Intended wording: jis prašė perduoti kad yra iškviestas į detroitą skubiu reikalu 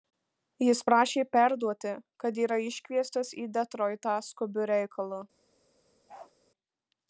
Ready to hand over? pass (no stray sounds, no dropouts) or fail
fail